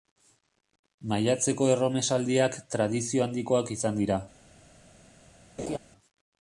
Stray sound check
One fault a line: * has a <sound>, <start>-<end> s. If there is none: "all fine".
* has a laugh, 5.6-5.8 s